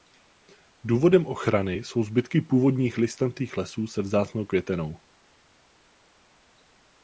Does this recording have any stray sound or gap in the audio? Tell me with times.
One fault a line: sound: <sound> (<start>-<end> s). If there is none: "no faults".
no faults